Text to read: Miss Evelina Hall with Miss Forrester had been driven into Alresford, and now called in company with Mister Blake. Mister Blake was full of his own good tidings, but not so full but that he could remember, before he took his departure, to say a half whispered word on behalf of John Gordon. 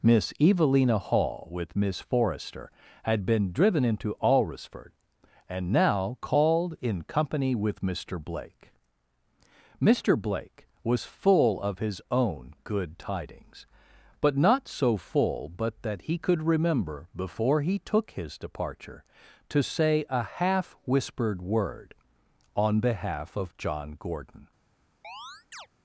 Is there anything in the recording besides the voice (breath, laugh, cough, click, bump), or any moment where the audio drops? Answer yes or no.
yes